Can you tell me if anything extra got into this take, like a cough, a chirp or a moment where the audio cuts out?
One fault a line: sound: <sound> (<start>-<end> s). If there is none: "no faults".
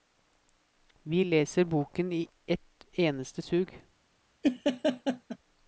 sound: laugh (4.4-5.4 s)